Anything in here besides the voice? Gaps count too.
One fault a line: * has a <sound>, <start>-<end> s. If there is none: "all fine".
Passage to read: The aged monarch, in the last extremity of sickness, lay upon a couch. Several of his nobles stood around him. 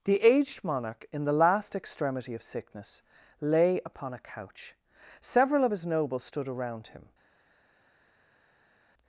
all fine